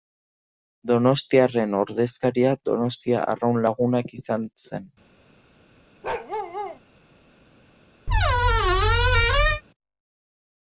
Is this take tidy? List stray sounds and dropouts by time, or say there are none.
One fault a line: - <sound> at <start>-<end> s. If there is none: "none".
- bark at 6.0-6.8 s
- squeak at 8.1-9.6 s